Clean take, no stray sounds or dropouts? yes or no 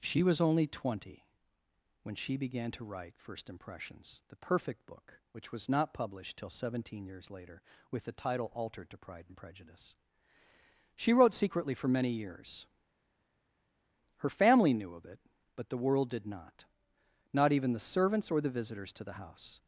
yes